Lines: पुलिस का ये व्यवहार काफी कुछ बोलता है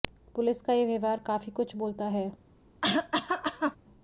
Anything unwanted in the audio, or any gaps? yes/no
yes